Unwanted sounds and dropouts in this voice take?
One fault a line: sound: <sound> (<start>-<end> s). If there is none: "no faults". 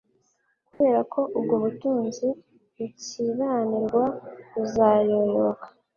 sound: dropout (0.7-0.8 s)